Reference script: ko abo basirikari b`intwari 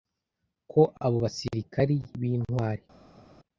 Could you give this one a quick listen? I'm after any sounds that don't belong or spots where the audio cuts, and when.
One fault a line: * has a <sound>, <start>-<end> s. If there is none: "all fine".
all fine